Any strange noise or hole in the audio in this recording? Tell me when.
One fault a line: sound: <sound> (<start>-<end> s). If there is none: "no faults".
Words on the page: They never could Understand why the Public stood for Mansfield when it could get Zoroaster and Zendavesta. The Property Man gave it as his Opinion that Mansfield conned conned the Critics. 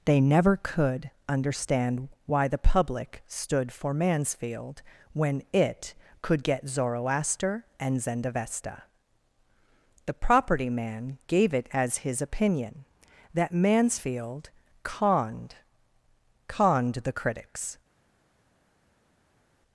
no faults